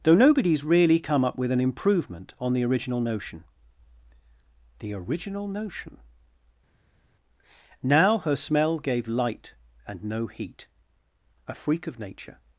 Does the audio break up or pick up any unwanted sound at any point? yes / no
no